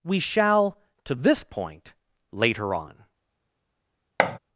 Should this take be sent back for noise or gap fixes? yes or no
yes